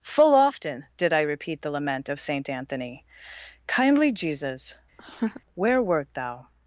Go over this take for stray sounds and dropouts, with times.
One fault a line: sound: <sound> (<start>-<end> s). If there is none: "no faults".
sound: laugh (5.0-5.4 s)